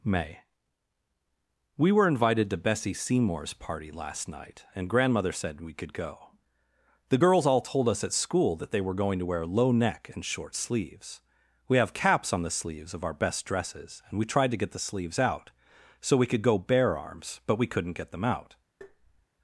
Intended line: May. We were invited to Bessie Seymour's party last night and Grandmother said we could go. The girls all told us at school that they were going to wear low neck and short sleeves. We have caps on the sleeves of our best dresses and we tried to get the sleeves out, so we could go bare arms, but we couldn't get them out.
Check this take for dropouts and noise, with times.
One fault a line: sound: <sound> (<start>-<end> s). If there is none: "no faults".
sound: tap (18.8-19.3 s)